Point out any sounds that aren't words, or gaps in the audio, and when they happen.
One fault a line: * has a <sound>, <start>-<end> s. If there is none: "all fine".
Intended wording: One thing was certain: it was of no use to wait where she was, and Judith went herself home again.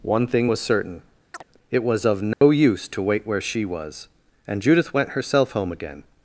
* has a chirp, 1.3-1.4 s
* has a dropout, 2.3-2.4 s